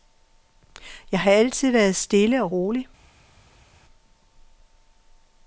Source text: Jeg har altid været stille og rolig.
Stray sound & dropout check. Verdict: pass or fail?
pass